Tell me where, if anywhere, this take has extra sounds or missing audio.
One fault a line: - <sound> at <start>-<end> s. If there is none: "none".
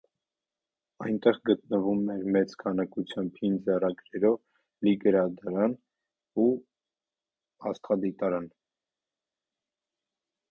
none